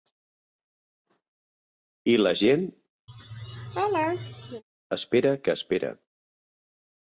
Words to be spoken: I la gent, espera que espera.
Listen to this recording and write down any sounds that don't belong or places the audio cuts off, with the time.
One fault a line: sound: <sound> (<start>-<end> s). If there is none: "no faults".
sound: laugh (3.1-4.6 s)